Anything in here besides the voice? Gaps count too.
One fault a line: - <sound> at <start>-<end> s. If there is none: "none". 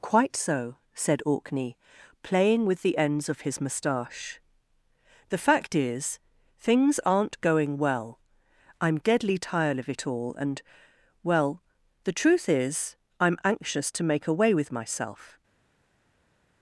none